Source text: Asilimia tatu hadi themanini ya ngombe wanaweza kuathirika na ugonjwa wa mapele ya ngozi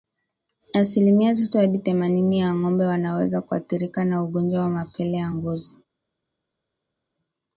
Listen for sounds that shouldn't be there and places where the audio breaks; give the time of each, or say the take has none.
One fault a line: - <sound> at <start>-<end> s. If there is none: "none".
none